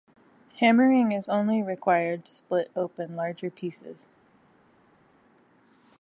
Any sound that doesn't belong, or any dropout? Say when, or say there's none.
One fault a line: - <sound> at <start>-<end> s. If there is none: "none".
none